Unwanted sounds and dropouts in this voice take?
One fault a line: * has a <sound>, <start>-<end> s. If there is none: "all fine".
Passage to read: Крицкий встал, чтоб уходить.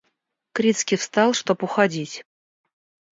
all fine